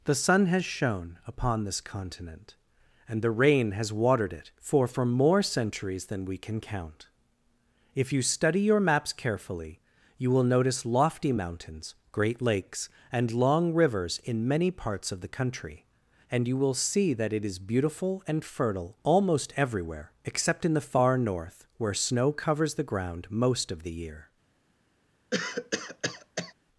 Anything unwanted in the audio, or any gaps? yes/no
yes